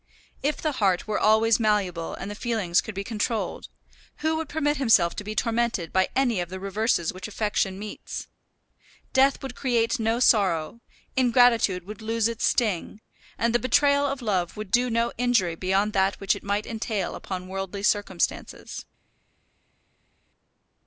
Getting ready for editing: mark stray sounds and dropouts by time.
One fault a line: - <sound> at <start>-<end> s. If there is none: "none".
none